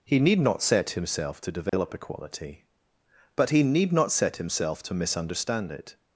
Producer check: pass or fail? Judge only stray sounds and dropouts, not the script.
fail